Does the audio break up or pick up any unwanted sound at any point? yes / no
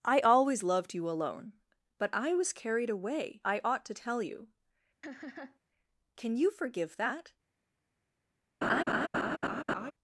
yes